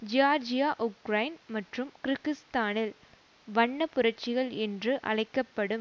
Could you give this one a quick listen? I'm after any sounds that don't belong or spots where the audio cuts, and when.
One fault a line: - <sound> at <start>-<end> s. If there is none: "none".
none